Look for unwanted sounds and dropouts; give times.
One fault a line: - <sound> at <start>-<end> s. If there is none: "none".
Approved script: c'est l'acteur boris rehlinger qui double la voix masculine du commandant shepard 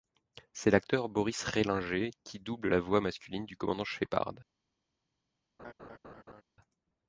- laugh at 5.6-6.4 s